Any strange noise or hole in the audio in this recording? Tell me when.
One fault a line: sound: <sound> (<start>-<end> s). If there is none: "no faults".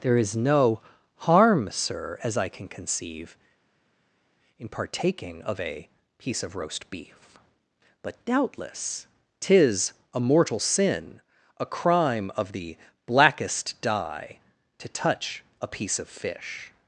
no faults